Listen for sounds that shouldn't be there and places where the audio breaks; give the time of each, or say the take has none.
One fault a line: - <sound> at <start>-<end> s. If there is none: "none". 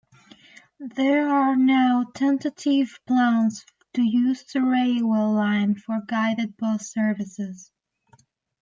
none